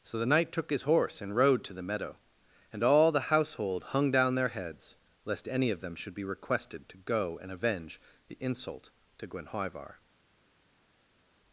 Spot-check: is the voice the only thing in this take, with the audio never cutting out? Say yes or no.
yes